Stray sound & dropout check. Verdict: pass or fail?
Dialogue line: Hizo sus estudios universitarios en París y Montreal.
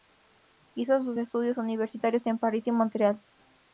pass